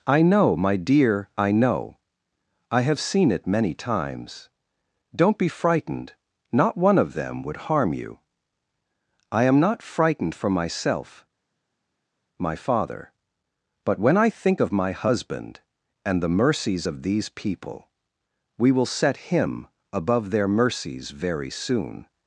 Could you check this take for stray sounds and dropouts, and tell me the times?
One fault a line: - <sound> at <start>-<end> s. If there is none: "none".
none